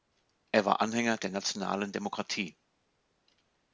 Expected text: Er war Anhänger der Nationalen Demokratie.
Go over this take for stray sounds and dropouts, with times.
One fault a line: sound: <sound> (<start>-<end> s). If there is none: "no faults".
no faults